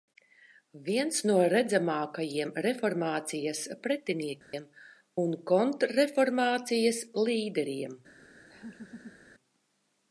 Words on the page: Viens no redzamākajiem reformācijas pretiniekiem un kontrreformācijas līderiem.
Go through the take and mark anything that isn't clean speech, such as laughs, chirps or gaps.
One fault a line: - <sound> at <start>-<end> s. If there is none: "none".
- dropout at 4.4-4.5 s
- laugh at 8.5-9.2 s